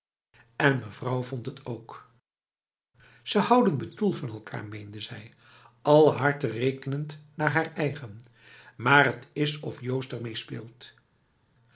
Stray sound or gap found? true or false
false